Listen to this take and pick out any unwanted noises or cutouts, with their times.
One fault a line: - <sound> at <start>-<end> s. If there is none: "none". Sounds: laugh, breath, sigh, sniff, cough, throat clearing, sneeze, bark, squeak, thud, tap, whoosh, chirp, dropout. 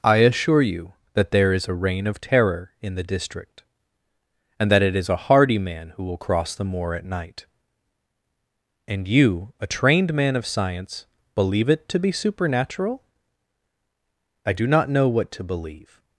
none